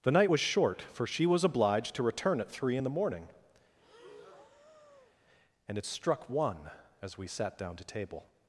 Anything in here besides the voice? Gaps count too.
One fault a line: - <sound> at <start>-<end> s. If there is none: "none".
- breath at 3.8-5.2 s